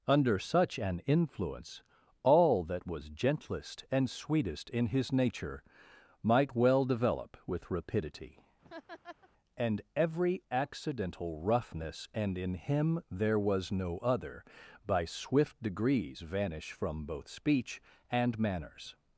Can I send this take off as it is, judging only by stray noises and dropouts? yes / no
no